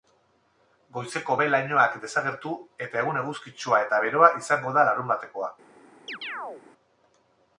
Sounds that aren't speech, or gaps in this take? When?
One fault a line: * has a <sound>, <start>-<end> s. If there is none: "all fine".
* has a chirp, 6.1-6.6 s